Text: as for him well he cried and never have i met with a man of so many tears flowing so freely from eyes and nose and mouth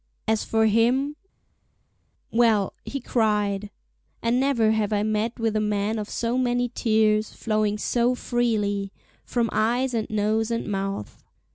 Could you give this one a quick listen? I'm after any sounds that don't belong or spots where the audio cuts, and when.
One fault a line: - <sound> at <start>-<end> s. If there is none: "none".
none